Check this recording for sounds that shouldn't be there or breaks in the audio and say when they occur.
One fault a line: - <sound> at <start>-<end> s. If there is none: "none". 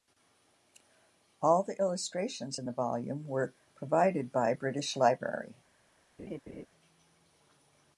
- laugh at 6.2-6.7 s